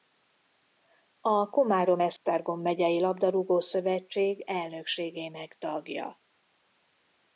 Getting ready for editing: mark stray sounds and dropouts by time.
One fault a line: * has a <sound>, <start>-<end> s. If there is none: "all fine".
* has a dropout, 2.2-2.2 s